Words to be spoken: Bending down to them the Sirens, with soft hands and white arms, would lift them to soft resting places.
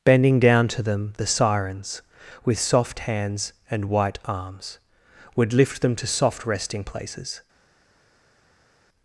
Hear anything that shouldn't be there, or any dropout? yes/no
no